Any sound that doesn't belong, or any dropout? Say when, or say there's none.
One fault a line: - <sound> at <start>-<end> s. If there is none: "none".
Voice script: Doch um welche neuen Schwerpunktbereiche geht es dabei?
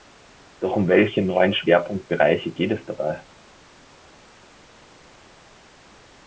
none